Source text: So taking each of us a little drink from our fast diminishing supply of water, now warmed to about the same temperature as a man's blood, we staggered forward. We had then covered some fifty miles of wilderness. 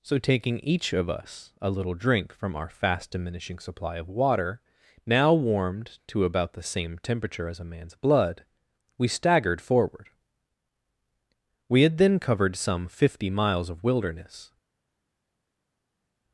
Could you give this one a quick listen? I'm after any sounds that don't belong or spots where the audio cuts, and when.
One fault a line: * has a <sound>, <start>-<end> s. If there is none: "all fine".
all fine